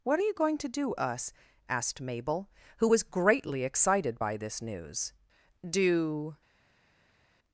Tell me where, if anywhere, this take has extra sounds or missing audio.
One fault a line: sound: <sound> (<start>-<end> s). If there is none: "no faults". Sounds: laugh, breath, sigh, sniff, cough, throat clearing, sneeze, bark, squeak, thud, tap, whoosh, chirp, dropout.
no faults